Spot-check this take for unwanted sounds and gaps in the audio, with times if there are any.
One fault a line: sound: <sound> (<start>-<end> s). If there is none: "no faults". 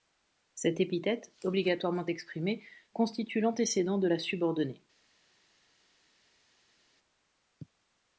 no faults